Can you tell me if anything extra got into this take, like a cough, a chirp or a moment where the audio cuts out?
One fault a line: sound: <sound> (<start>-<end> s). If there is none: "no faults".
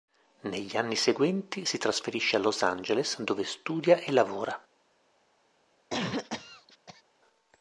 sound: cough (5.9-7.0 s)